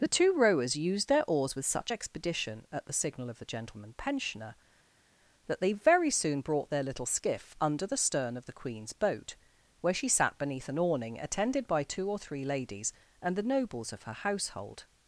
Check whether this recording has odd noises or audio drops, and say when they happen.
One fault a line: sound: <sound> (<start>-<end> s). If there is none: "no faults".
no faults